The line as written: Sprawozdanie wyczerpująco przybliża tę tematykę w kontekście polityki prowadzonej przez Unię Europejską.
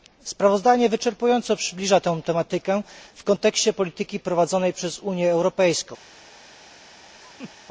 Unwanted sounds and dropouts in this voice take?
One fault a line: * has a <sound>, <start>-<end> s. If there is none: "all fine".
* has a laugh, 7.2-7.5 s